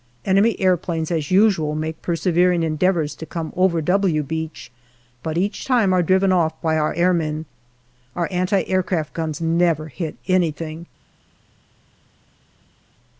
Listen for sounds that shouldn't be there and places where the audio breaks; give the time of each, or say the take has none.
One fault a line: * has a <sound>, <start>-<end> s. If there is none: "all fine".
all fine